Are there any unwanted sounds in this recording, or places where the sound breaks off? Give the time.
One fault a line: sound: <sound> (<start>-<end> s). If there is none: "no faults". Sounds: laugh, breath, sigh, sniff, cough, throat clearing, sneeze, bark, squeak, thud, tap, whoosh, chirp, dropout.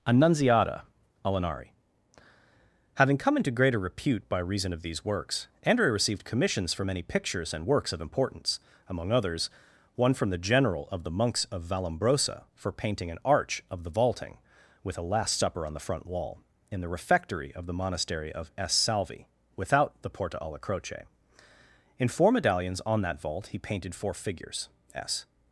no faults